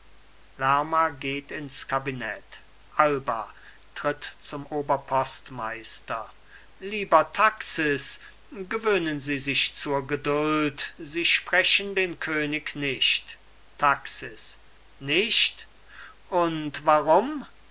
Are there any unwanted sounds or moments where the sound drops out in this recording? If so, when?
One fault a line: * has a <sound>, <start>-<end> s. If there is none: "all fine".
all fine